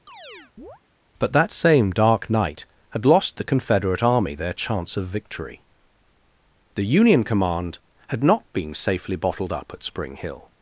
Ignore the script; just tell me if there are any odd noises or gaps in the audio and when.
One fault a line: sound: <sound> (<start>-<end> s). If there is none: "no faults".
sound: chirp (0.1-0.8 s)